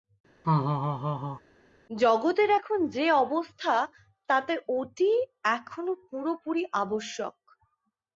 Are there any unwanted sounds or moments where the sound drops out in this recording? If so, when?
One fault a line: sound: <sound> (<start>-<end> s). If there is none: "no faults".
sound: laugh (0.4-1.4 s)